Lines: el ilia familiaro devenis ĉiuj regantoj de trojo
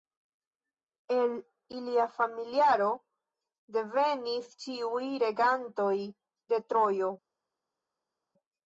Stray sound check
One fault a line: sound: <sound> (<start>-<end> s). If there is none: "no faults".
no faults